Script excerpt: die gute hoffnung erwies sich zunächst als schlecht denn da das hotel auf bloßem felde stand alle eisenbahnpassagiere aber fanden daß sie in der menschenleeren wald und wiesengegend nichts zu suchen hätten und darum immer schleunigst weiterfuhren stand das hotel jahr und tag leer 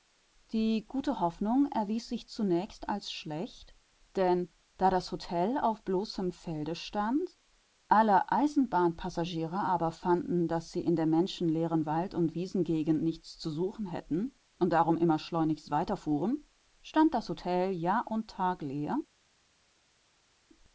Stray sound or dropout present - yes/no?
no